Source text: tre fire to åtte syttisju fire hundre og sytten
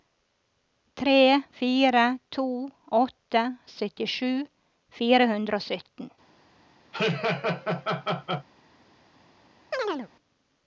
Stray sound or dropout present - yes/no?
yes